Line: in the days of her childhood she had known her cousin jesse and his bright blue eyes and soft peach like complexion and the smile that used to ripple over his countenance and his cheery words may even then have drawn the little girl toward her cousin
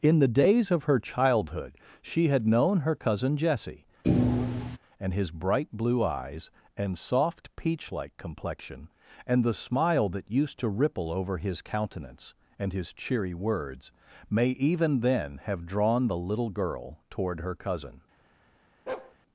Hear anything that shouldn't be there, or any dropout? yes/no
yes